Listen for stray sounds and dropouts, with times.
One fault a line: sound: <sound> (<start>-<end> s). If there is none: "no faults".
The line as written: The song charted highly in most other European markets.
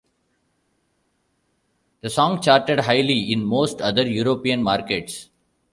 no faults